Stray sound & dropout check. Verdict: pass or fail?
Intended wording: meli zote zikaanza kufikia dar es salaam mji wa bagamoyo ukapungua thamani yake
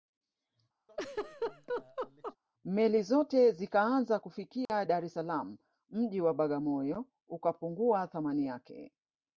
fail